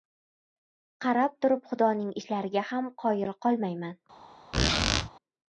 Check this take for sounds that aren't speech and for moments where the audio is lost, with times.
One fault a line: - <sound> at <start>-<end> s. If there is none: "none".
- squeak at 4.5-5.1 s